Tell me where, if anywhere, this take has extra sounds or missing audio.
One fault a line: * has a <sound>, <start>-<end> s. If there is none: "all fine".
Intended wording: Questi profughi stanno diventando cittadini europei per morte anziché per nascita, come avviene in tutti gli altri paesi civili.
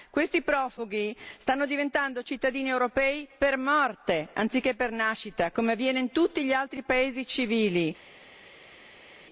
all fine